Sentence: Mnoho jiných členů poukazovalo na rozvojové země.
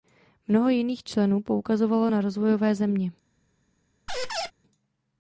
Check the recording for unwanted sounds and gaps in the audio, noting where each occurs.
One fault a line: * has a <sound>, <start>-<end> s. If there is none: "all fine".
* has a squeak, 4.1-4.5 s